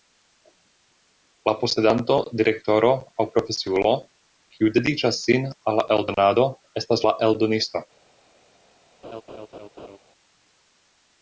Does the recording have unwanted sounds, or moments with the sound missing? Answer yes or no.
yes